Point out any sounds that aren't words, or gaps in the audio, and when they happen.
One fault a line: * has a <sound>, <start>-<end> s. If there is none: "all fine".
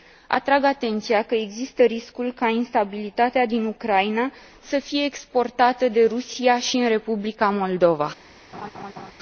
* has a laugh, 8.5-9.1 s